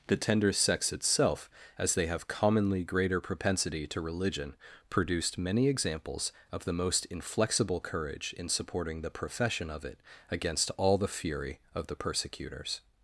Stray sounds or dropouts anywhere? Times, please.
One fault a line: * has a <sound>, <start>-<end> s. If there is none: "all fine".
all fine